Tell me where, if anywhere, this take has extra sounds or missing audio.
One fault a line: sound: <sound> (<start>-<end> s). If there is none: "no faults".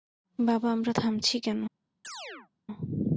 sound: chirp (2.0-2.5 s)